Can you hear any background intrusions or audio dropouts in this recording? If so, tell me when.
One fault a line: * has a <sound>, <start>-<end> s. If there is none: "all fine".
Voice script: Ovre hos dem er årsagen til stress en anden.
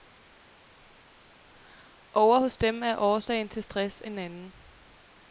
all fine